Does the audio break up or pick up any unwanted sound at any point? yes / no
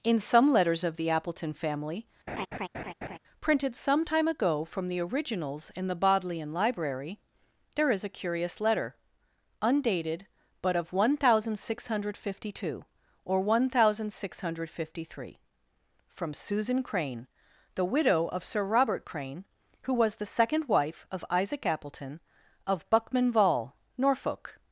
yes